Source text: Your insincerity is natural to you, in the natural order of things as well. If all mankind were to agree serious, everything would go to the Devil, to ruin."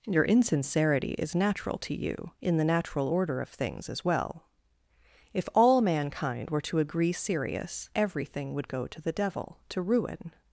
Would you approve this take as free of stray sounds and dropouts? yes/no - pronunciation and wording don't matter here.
yes